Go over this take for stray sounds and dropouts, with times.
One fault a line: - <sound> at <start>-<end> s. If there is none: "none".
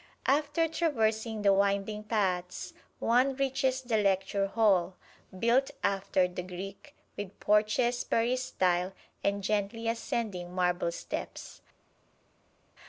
none